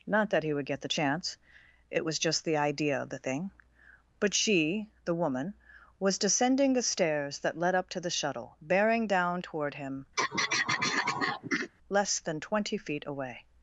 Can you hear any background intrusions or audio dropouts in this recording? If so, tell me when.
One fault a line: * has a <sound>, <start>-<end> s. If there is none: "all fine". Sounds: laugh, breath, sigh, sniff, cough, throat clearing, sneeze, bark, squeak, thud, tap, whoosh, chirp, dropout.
* has a throat clearing, 10.2-11.7 s